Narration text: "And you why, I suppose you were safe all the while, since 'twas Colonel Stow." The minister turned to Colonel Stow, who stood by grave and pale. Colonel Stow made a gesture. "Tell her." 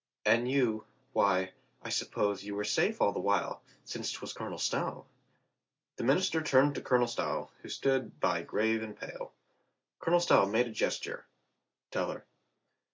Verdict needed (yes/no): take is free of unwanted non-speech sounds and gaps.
yes